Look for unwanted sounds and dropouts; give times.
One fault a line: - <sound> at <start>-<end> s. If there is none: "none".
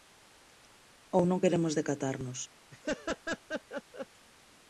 - laugh at 2.7-4.1 s